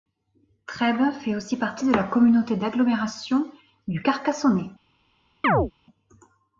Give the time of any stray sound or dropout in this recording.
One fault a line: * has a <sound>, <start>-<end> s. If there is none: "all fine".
* has a chirp, 5.4-5.7 s